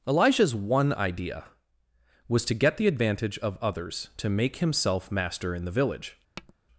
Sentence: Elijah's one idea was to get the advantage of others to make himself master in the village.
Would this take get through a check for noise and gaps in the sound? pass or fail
fail